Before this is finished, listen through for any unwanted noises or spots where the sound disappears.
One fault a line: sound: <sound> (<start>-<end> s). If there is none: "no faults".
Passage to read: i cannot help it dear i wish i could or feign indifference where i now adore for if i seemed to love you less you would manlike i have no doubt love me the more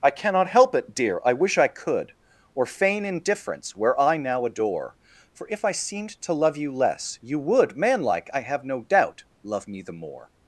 no faults